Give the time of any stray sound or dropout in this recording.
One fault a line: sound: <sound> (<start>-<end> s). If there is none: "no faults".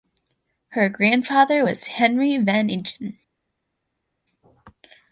no faults